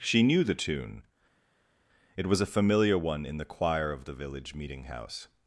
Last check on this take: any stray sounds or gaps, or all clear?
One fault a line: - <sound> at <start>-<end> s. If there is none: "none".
none